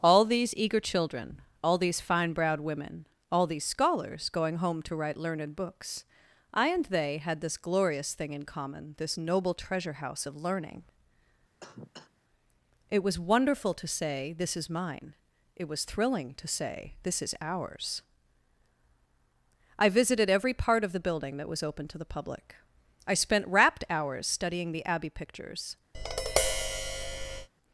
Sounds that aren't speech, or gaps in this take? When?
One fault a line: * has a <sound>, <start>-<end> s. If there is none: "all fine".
* has a cough, 11.6-12.1 s
* has a tap, 25.9-27.5 s